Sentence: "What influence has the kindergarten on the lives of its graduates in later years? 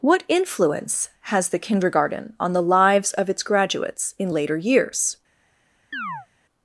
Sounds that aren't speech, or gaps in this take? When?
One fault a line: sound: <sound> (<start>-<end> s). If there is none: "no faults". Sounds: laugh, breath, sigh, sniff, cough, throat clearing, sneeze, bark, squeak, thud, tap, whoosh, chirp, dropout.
sound: chirp (5.9-6.3 s)